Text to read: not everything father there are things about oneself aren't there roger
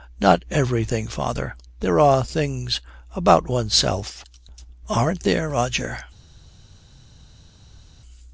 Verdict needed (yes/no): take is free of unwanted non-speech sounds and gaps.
yes